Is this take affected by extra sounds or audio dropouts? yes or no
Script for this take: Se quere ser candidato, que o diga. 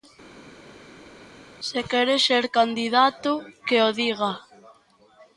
no